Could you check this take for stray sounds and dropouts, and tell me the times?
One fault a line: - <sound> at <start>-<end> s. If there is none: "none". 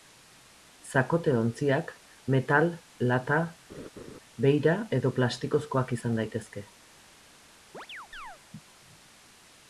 - laugh at 3.7-4.2 s
- chirp at 7.7-8.4 s